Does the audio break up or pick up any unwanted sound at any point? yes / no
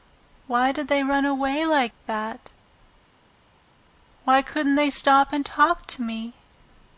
no